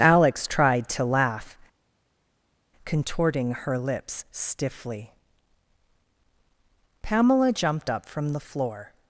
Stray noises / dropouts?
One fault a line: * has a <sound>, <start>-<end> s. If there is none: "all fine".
all fine